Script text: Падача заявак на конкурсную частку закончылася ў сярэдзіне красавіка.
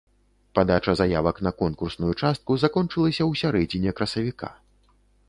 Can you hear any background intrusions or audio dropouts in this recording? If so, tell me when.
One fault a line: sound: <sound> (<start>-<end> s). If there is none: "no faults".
no faults